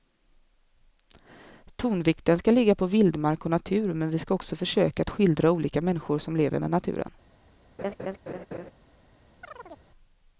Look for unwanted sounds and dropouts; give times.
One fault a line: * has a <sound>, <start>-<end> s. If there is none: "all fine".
* has a laugh, 7.8-8.7 s
* has a chirp, 9.4-9.9 s